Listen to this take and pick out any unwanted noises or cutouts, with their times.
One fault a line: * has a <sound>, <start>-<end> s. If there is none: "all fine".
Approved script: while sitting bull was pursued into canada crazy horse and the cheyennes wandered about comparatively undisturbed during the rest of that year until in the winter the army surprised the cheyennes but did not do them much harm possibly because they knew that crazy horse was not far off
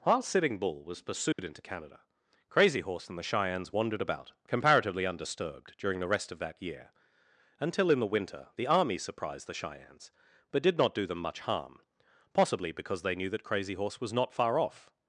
* has a dropout, 1.3-1.4 s